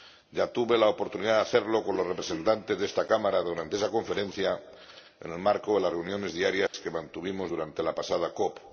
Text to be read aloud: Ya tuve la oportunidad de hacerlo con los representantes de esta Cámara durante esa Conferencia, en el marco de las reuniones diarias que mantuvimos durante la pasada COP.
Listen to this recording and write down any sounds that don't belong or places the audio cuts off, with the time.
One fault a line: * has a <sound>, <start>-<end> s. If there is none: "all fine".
* has a dropout, 6.7-6.7 s